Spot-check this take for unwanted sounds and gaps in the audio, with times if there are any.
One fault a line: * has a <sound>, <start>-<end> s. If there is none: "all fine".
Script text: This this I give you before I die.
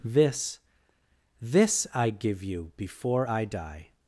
all fine